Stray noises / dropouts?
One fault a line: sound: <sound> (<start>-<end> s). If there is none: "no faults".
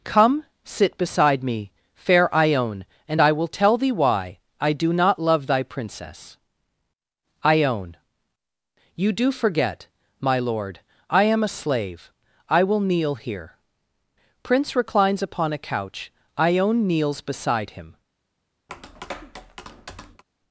sound: tap (18.7-20.2 s)